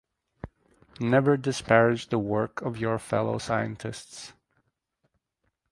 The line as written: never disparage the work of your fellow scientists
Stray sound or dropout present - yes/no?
no